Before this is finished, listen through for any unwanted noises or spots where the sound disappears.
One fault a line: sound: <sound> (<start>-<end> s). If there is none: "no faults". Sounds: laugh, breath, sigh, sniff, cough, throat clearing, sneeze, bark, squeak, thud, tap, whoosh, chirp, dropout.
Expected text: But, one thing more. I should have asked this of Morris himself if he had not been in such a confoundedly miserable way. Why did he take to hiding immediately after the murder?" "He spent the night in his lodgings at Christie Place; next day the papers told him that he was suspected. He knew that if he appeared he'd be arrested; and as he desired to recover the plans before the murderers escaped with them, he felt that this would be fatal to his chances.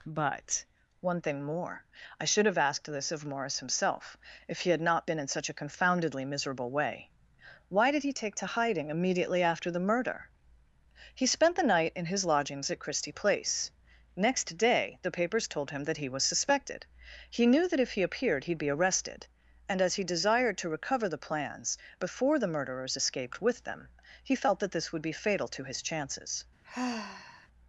sound: sigh (26.6-27.5 s)